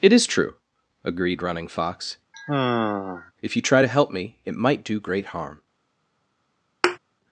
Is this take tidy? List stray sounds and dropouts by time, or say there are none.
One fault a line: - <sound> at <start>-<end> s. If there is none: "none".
- sigh at 2.3-3.3 s
- thud at 6.8-7.0 s